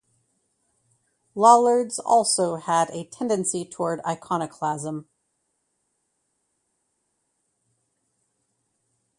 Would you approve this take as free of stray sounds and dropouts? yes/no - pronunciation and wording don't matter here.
yes